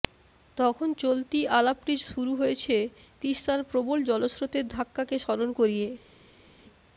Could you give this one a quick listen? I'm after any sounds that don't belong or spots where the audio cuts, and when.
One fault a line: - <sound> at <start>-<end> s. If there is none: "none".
none